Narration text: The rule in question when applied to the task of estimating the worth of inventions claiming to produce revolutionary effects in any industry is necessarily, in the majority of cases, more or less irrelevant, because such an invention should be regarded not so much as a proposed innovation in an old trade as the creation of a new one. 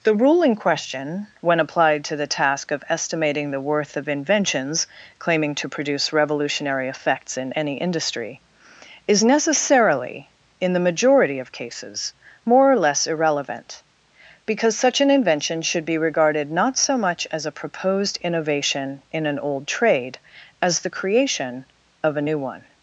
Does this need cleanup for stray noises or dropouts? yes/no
no